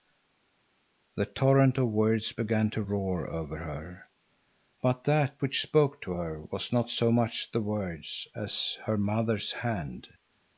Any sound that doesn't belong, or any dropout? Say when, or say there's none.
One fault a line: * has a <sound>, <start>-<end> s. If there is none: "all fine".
all fine